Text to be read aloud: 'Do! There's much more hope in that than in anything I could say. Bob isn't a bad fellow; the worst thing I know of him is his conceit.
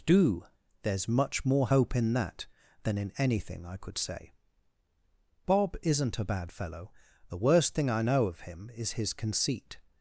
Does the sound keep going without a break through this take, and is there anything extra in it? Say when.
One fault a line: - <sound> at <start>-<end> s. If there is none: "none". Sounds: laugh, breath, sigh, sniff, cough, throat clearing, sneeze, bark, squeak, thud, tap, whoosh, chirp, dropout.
none